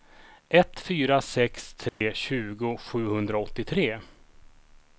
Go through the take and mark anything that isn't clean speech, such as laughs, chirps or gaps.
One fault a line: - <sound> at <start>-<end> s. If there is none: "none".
- dropout at 1.9-2.0 s